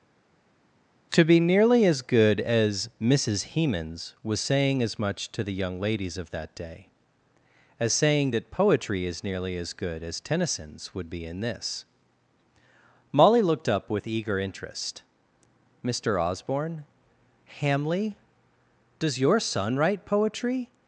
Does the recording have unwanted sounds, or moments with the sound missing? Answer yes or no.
no